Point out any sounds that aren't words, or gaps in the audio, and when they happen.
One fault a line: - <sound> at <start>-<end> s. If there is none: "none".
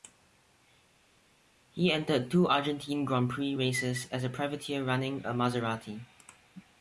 none